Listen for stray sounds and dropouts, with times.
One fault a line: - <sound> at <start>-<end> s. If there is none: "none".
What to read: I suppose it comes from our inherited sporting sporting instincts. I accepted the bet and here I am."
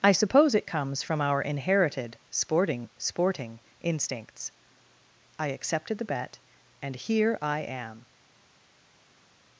none